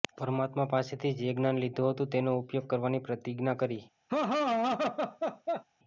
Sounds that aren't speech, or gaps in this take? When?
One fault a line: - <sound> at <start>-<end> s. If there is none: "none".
- laugh at 4.1-5.6 s